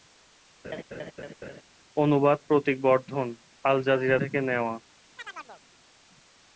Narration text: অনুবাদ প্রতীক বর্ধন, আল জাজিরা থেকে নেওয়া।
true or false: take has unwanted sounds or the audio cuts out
true